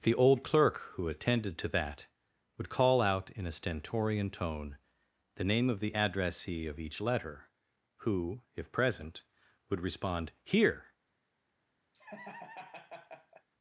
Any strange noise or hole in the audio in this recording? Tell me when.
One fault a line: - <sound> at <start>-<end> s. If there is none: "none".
- laugh at 11.9-13.5 s